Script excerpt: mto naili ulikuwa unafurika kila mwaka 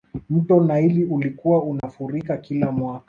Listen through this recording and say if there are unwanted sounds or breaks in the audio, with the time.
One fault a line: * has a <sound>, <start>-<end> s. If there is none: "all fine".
* has a dropout, 1.8-1.8 s